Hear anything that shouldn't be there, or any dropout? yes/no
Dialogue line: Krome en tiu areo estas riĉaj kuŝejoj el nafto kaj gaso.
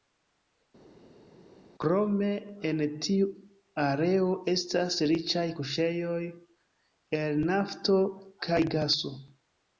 no